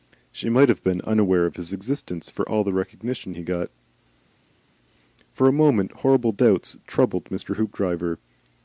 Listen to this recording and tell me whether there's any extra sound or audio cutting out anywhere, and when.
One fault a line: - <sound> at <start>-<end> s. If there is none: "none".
none